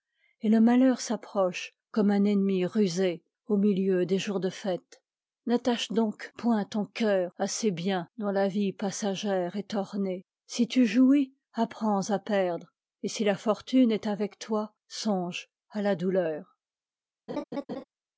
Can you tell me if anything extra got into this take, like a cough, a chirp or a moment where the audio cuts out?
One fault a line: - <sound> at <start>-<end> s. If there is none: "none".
- laugh at 17.3-17.8 s